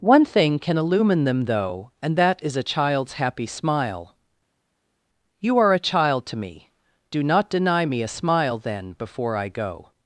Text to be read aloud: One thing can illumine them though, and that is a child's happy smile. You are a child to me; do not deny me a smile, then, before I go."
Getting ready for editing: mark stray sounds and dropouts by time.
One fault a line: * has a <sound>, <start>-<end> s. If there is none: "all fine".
all fine